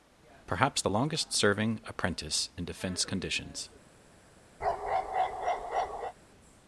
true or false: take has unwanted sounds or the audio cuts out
true